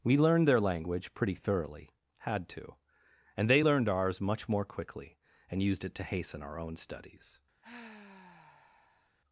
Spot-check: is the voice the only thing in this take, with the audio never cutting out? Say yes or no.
no